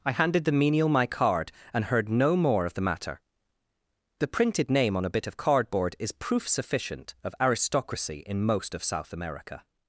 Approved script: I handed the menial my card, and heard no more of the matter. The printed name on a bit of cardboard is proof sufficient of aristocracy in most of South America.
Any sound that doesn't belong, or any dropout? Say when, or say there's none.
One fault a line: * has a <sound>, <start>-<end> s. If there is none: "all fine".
all fine